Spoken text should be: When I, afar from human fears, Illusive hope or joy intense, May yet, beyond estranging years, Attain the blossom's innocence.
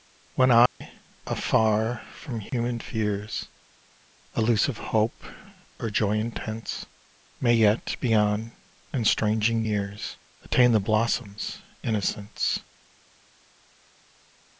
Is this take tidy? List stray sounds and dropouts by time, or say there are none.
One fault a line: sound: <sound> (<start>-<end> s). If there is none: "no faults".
sound: dropout (0.7-0.8 s)
sound: dropout (2.5-2.5 s)